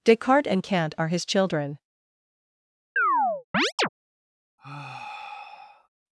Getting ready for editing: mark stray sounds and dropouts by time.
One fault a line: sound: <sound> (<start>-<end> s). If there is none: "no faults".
sound: chirp (3.0-3.9 s)
sound: sigh (4.6-5.9 s)